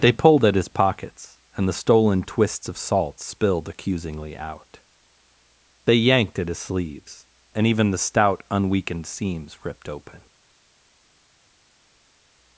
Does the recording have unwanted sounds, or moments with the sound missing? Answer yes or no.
no